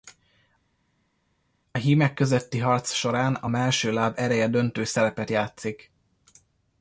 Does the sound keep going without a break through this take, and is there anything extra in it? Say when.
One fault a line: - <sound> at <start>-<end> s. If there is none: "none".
none